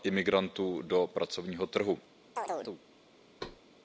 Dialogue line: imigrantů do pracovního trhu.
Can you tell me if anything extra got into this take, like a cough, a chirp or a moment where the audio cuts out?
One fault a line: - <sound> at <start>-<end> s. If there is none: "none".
- chirp at 2.4-2.8 s
- thud at 3.4-3.6 s